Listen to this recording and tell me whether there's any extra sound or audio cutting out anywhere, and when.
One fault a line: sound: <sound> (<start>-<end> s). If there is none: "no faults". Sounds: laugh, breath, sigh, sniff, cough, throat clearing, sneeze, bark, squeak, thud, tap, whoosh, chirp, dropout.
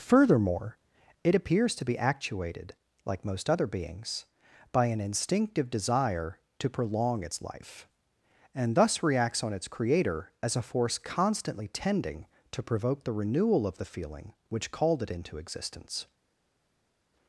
no faults